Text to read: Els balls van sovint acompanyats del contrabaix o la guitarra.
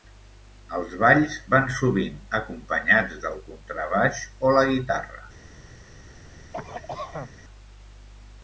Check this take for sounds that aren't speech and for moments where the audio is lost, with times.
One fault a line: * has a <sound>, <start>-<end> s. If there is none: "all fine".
* has a cough, 6.5-7.4 s